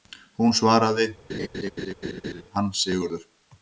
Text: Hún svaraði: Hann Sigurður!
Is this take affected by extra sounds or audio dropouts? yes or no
yes